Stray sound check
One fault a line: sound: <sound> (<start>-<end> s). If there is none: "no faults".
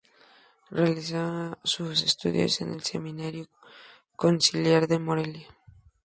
no faults